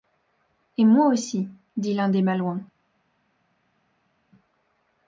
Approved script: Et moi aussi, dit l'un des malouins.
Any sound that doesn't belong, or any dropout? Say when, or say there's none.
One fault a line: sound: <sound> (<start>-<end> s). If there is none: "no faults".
no faults